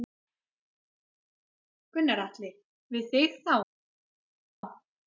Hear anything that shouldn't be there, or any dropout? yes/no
no